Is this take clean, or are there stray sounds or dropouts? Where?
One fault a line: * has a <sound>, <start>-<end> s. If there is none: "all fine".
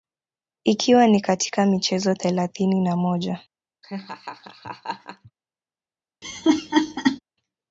* has a laugh, 3.8-5.3 s
* has a laugh, 6.2-7.2 s